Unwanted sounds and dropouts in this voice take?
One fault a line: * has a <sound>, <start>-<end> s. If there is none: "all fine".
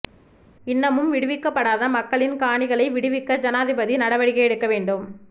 all fine